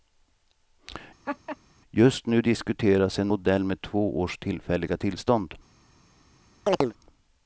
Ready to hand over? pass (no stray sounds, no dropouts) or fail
fail